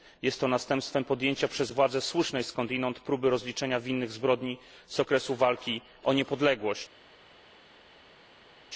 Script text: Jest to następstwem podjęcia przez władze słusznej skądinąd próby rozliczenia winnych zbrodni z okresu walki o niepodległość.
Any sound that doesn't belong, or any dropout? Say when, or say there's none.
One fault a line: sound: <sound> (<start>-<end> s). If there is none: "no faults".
no faults